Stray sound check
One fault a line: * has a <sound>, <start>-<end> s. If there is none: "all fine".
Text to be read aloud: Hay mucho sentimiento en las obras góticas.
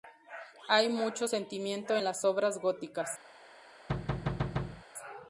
* has a thud, 3.9-4.8 s